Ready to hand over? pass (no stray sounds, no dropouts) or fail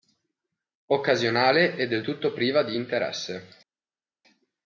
pass